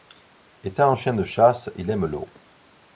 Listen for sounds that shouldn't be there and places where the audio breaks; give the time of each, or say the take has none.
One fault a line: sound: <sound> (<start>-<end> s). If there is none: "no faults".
no faults